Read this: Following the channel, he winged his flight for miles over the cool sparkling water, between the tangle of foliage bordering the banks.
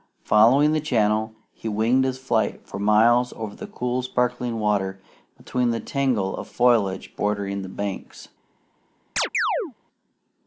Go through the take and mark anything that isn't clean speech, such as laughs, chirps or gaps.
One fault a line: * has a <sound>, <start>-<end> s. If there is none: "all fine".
* has a chirp, 9.2-9.7 s